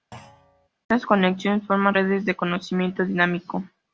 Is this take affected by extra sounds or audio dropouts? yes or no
yes